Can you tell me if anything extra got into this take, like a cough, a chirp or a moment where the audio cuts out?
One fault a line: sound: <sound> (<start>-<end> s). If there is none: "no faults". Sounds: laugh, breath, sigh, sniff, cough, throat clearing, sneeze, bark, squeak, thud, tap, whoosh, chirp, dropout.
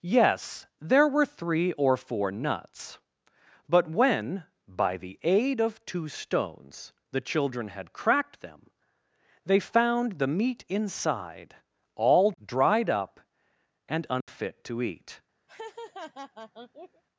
sound: dropout (14.2-14.3 s)
sound: laugh (15.5-17.0 s)